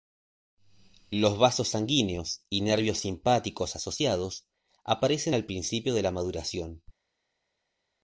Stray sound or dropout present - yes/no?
no